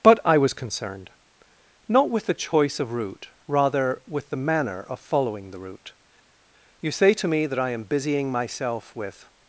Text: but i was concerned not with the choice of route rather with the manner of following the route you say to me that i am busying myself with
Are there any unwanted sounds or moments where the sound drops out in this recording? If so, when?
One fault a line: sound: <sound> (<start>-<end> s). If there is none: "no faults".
no faults